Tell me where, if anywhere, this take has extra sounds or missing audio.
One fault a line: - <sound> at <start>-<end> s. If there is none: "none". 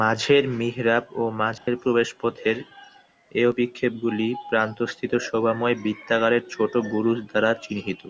- dropout at 1.6-1.7 s